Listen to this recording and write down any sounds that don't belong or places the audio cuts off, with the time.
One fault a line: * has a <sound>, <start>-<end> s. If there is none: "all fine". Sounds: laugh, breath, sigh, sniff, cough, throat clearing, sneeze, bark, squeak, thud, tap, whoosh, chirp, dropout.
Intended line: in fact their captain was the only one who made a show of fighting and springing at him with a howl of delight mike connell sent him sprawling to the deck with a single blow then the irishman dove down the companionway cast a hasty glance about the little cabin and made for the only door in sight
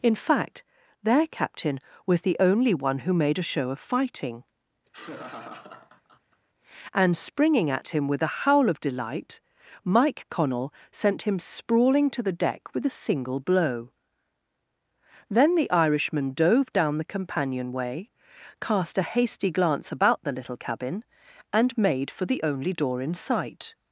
* has a laugh, 4.9-6.4 s